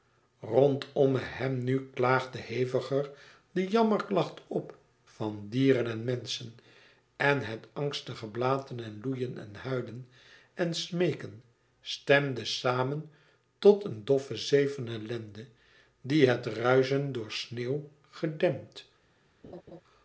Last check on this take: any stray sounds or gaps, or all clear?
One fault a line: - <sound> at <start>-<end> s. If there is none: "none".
- laugh at 19.4-19.8 s